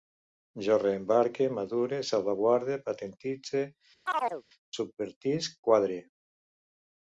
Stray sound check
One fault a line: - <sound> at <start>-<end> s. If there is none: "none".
- chirp at 4.1-4.4 s